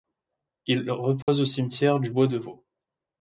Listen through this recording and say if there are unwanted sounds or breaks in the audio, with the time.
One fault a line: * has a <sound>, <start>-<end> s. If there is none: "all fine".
* has a dropout, 1.2-1.3 s